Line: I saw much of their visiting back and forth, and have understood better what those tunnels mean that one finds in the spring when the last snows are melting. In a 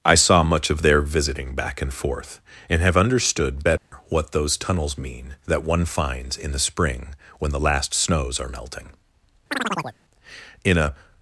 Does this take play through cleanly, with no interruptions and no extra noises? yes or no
no